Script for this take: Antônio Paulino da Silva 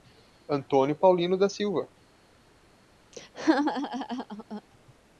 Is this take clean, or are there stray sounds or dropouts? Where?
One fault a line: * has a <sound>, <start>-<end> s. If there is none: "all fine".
* has a laugh, 3.1-4.6 s